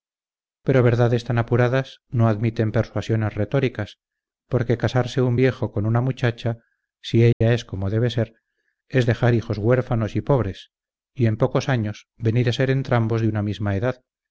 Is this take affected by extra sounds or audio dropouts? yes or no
yes